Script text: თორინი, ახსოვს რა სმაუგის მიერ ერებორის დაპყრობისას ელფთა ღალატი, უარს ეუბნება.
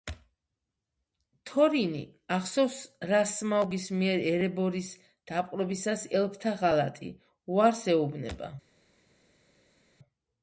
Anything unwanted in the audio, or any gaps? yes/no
no